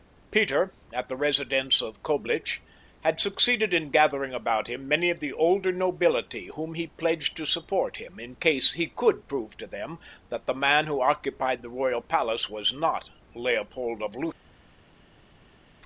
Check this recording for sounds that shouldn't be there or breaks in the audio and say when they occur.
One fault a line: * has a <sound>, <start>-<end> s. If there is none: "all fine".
all fine